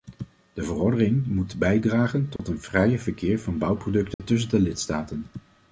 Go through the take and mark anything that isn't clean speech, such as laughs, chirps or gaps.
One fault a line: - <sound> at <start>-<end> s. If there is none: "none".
- dropout at 2.4-2.4 s
- dropout at 4.1-4.2 s